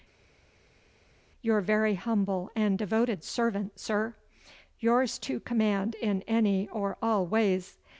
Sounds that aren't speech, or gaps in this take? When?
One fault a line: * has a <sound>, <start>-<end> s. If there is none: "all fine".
all fine